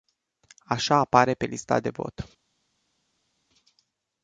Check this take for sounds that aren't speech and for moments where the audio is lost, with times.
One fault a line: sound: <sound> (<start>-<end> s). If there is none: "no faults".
no faults